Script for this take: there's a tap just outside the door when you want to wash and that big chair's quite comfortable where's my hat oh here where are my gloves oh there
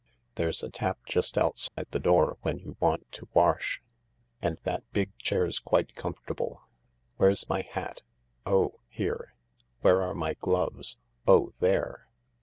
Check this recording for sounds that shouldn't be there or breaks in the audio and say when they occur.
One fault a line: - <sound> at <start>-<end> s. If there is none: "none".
- dropout at 1.7-1.8 s